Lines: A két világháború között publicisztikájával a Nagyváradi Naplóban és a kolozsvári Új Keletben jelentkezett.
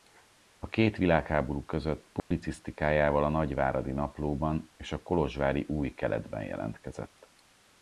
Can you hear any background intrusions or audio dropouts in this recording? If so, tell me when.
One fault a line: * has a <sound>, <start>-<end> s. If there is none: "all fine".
* has a dropout, 2.2-2.3 s